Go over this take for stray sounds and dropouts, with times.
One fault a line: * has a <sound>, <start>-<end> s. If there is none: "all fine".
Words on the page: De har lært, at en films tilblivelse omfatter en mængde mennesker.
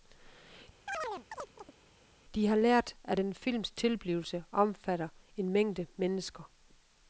* has a chirp, 0.9-1.8 s